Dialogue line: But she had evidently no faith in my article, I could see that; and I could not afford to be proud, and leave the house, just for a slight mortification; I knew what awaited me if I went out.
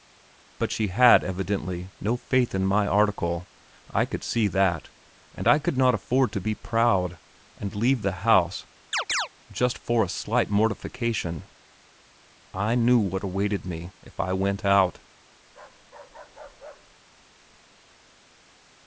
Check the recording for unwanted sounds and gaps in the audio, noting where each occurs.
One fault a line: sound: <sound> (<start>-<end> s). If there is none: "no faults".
sound: chirp (8.9-9.3 s)
sound: bark (15.5-17.0 s)